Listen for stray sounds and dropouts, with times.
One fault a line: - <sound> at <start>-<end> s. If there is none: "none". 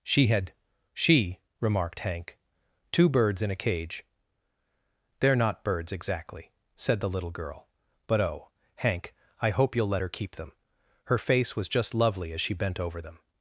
none